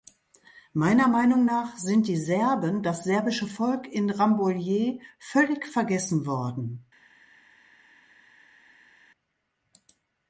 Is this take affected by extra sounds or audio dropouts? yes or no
no